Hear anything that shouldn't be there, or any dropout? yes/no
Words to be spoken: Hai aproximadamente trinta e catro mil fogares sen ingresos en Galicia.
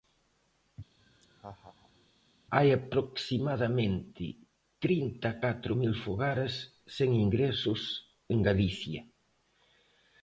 yes